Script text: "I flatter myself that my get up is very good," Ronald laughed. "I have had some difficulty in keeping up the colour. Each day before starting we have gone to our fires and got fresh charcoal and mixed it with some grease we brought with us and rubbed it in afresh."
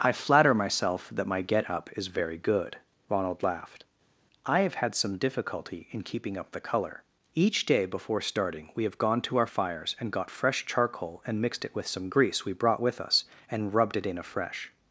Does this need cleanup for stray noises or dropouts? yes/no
no